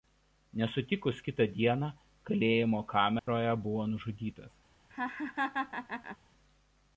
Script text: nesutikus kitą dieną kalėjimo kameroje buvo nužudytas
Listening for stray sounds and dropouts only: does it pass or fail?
fail